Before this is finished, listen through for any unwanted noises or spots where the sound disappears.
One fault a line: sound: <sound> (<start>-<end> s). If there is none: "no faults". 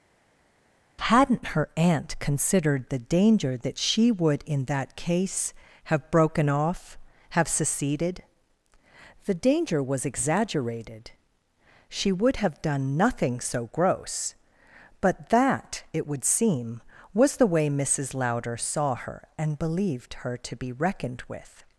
no faults